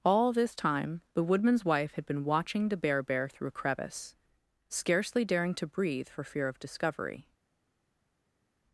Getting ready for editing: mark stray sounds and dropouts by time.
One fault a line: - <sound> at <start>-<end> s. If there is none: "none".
none